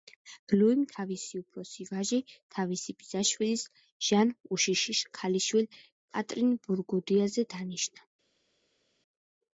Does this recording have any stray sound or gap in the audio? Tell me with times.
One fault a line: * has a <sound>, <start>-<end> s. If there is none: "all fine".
all fine